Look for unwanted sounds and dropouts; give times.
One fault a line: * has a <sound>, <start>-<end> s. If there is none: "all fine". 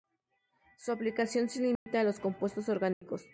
* has a dropout, 1.8-1.9 s
* has a dropout, 2.9-3.0 s